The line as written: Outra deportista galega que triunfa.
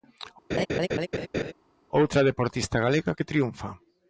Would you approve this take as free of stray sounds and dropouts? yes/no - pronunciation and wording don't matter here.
no